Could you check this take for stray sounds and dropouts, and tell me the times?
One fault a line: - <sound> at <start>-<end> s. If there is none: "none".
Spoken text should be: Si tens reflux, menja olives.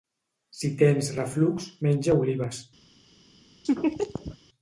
- laugh at 3.6-4.4 s